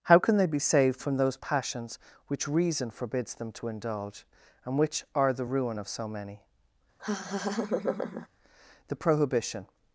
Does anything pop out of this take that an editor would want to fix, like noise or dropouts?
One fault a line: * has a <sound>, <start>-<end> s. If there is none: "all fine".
* has a laugh, 7.0-8.3 s